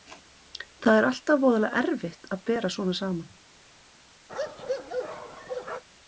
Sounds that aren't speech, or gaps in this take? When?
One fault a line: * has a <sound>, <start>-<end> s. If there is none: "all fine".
* has a bark, 4.3-5.8 s